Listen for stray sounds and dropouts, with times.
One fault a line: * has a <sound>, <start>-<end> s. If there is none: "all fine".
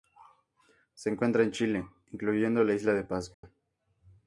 * has a dropout, 3.3-3.4 s